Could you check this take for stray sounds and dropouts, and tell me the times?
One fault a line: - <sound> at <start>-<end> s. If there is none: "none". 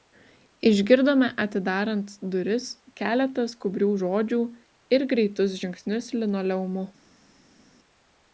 none